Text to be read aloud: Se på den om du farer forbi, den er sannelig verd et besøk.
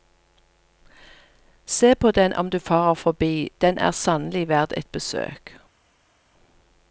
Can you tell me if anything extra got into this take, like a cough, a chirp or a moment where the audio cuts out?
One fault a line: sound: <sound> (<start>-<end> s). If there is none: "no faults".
no faults